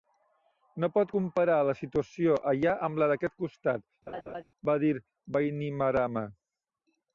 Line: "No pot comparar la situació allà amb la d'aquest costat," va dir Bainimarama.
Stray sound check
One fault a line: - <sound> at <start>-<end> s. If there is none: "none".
- laugh at 4.1-4.4 s